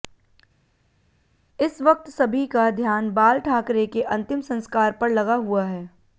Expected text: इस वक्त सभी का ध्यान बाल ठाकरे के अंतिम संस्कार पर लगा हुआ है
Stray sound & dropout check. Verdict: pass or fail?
pass